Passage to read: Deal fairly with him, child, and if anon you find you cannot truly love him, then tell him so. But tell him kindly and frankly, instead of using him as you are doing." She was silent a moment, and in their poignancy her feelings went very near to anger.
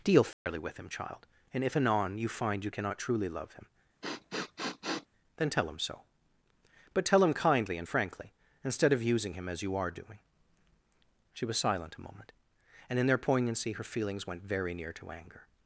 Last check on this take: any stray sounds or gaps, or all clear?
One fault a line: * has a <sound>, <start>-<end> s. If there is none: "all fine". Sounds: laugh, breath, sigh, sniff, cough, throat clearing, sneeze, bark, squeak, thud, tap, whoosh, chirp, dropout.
* has a dropout, 0.3-0.5 s
* has a sniff, 4.0-5.1 s